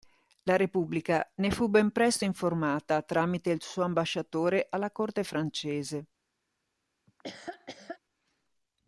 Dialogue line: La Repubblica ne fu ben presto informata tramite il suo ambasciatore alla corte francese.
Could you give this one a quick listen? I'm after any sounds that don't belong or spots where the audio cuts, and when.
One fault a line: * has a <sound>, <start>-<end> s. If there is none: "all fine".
* has a laugh, 7.1-8.0 s